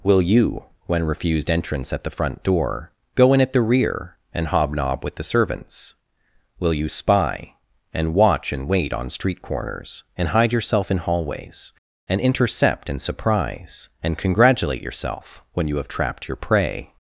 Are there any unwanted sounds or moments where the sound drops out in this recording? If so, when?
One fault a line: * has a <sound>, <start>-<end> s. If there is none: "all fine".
all fine